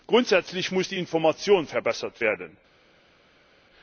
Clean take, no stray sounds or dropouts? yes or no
yes